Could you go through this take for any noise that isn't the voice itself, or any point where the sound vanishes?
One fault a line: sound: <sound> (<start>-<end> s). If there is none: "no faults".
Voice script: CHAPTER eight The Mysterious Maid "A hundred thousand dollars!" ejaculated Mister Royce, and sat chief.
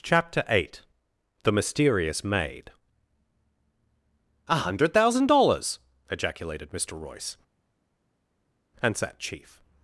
no faults